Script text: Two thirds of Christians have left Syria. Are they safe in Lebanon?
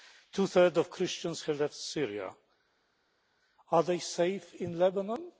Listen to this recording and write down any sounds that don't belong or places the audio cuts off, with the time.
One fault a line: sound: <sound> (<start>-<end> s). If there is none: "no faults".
no faults